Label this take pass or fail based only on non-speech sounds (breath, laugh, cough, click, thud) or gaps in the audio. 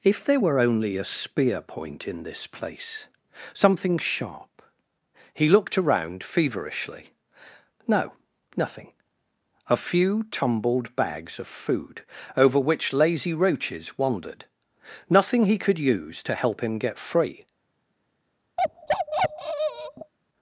fail